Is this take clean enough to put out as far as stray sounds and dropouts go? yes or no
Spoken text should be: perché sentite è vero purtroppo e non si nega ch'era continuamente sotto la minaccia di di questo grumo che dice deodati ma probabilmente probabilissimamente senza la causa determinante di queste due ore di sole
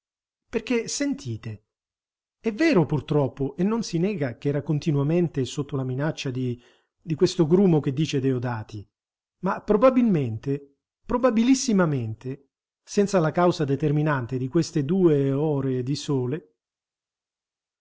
yes